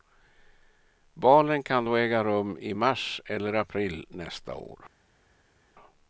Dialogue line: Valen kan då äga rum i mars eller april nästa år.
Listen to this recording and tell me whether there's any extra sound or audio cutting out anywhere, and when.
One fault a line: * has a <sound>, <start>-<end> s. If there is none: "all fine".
all fine